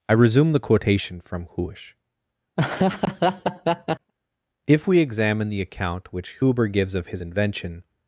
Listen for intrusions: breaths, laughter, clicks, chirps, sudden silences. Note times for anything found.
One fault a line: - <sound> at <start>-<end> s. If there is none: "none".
- laugh at 2.6-4.1 s